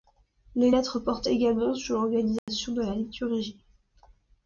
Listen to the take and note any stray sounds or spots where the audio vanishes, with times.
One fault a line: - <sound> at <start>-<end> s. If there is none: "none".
- dropout at 2.4-2.5 s